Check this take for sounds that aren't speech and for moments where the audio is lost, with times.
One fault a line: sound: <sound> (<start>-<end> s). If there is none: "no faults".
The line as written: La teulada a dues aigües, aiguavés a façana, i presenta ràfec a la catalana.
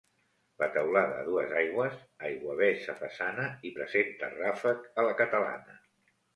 no faults